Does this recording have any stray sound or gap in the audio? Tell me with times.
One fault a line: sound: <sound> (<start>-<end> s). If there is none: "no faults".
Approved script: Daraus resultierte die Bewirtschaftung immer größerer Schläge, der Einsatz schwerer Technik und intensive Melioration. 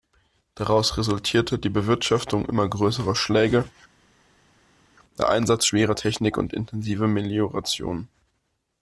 no faults